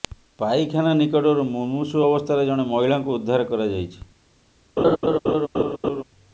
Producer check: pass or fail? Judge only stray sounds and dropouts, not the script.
fail